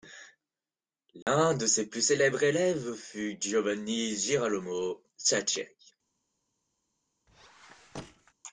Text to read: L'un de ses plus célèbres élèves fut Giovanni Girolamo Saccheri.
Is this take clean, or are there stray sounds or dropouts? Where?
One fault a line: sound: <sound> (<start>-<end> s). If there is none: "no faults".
sound: dropout (1.2-1.3 s)
sound: squeak (7.3-8.3 s)